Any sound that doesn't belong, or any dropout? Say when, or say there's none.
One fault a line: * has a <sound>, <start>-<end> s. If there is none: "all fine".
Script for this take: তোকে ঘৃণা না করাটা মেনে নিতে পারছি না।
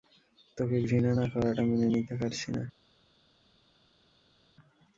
all fine